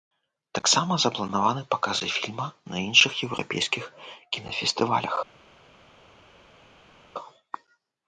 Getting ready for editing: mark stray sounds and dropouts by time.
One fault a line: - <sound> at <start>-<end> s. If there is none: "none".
none